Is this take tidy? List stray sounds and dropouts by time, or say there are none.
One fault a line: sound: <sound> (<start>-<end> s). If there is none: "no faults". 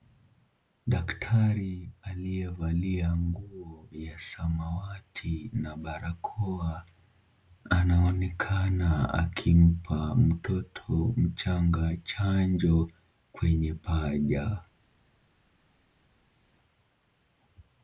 no faults